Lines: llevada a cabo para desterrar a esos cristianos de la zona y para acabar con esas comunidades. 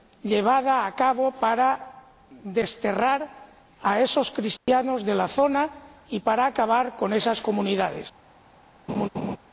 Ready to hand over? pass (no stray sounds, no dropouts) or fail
fail